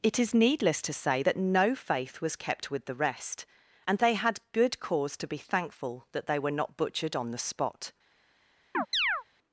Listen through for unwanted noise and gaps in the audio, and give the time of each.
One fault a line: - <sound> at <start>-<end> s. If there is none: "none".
- chirp at 8.7-9.2 s